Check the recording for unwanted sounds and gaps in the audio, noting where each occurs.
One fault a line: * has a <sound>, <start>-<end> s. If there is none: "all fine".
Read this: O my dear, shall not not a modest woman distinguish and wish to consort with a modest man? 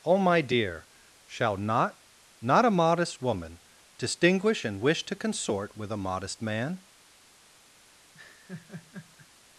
* has a laugh, 8.1-9.3 s